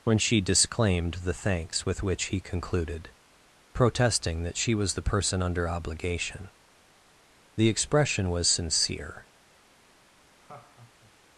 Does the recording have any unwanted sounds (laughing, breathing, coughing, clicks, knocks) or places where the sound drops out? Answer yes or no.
yes